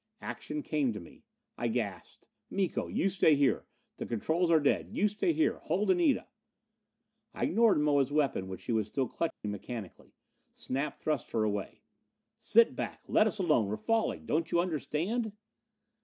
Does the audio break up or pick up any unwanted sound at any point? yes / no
yes